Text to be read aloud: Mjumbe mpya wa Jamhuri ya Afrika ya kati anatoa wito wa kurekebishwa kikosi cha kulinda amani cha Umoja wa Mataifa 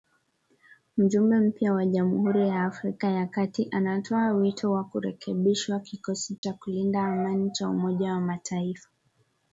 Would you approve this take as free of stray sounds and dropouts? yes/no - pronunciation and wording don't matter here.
no